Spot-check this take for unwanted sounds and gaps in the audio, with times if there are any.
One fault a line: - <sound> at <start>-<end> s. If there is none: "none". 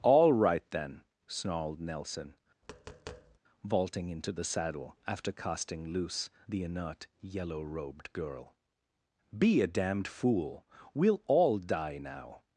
- tap at 2.6-3.4 s